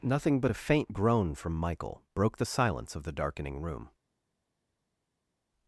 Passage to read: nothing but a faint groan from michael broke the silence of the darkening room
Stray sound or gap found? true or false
false